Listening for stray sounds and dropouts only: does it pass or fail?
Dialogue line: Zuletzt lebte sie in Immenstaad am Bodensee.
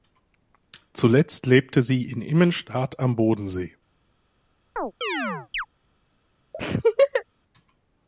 fail